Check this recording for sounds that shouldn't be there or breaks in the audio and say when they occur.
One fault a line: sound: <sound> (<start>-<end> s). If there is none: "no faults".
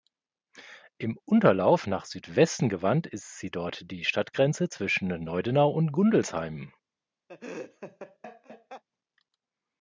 sound: laugh (7.3-8.8 s)